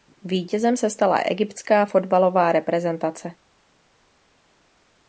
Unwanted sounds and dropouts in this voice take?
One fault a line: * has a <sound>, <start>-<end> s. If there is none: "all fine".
all fine